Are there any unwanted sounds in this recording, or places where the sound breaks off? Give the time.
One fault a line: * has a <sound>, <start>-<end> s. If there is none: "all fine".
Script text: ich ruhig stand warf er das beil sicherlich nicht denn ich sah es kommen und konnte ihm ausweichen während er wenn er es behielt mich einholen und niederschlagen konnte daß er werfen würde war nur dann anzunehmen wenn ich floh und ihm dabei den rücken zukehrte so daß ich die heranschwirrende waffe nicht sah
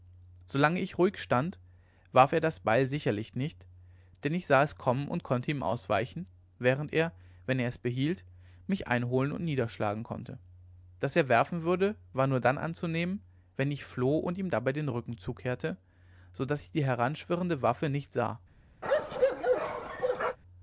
* has a bark, 18.8-20.4 s